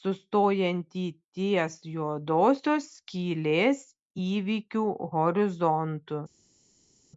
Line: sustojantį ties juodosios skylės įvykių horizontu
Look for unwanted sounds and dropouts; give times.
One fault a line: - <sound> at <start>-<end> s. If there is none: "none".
none